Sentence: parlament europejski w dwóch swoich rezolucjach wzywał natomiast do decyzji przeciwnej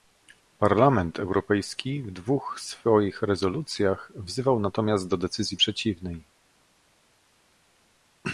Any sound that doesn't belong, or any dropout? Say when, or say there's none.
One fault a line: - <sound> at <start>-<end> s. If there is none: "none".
none